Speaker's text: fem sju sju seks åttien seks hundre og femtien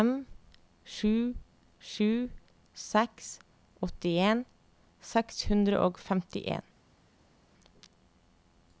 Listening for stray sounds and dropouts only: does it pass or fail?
pass